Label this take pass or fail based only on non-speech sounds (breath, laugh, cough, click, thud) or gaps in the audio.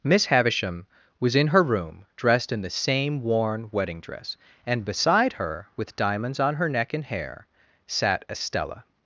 pass